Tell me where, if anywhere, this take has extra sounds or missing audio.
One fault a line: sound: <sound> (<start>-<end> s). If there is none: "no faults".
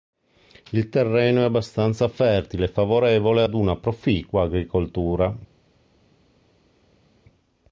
no faults